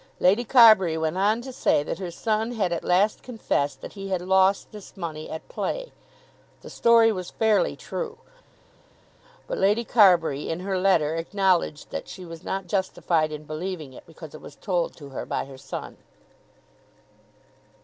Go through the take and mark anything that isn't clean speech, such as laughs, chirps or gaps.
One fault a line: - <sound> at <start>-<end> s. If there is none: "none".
none